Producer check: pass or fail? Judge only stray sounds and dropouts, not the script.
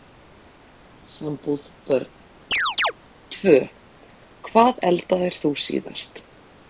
fail